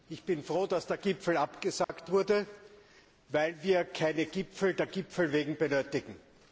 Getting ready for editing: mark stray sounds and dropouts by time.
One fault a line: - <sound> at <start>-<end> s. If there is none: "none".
- dropout at 1.8-1.9 s